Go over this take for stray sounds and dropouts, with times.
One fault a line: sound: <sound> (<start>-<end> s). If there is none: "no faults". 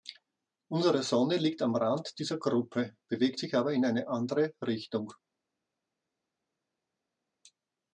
no faults